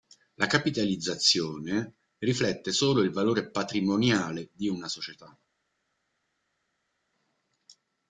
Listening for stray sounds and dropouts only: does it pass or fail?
pass